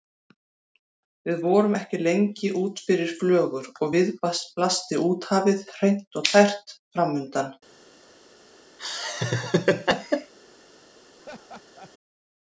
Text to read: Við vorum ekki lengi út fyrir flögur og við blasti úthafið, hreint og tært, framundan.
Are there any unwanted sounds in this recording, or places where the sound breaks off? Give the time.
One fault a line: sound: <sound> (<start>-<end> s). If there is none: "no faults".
sound: laugh (8.8-10.3 s)
sound: laugh (11.2-11.9 s)